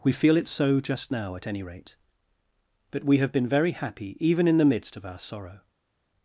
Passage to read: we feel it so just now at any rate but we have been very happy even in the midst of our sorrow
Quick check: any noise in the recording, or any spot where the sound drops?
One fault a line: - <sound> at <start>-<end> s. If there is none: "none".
none